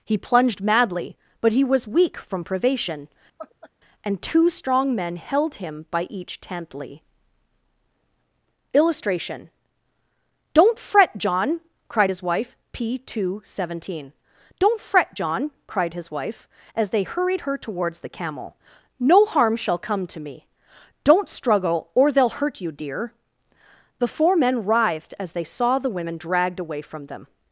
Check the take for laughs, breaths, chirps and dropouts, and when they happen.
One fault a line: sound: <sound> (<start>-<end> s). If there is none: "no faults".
sound: laugh (3.4-3.7 s)